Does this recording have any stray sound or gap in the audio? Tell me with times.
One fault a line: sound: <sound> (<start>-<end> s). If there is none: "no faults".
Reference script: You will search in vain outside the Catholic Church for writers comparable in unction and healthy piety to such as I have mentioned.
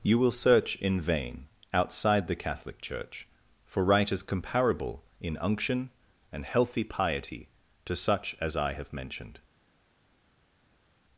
no faults